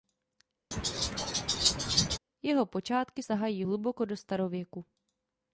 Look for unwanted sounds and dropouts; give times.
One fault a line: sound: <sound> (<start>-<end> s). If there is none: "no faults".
sound: laugh (0.7-2.2 s)